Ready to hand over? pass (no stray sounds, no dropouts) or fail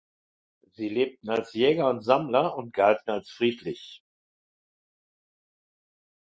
pass